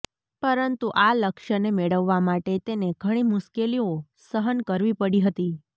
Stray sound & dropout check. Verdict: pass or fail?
pass